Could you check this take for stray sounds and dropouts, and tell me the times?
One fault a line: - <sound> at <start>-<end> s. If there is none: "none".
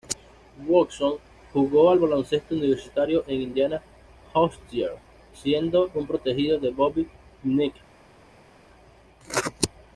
none